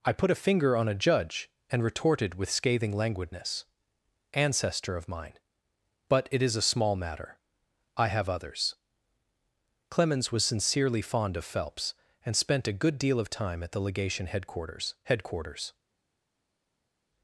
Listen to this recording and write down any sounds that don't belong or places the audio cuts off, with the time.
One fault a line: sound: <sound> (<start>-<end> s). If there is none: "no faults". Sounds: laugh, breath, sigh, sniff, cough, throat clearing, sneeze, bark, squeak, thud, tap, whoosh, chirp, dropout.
no faults